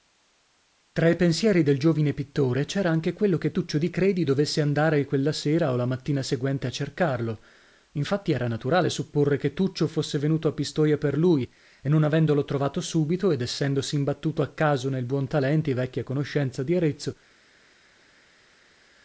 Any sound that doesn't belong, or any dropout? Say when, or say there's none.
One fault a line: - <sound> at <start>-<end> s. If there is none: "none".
none